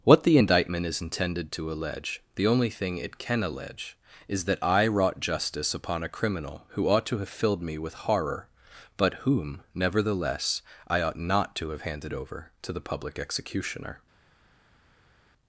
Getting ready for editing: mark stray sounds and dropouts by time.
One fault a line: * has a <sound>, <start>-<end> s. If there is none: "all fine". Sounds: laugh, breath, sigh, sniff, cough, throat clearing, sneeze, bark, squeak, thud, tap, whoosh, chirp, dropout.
all fine